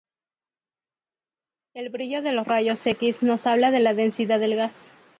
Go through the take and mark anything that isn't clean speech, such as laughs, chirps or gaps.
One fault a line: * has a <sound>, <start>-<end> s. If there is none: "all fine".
all fine